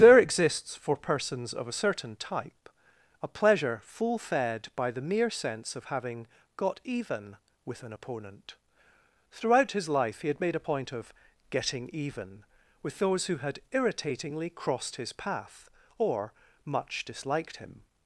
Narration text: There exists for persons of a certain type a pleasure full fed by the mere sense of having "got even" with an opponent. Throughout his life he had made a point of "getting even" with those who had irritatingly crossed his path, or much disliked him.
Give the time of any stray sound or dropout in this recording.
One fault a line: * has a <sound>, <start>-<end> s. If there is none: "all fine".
all fine